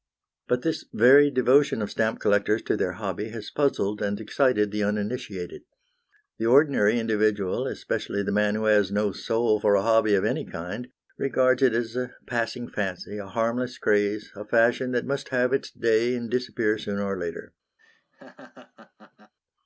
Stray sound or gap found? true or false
true